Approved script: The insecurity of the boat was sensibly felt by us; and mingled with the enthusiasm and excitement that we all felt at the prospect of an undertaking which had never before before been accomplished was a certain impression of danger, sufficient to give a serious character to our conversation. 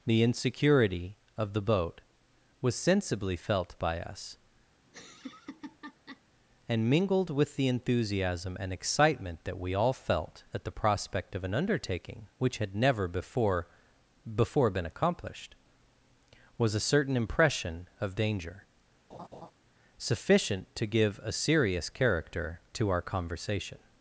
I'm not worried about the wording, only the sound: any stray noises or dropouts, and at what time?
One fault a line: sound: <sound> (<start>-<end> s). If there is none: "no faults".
sound: laugh (4.8-6.2 s)
sound: laugh (19.1-19.5 s)